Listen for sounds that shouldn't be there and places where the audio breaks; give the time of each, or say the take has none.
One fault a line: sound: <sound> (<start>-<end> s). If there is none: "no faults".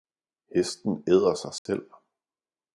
sound: dropout (1.6-1.7 s)